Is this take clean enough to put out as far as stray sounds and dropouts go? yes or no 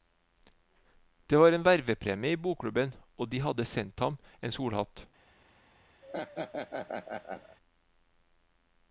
no